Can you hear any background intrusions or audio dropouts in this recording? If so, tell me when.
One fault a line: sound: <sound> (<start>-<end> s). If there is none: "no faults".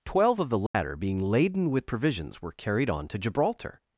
sound: dropout (0.7-0.7 s)